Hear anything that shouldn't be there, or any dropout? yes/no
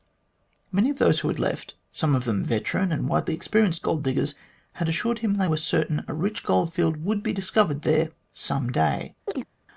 yes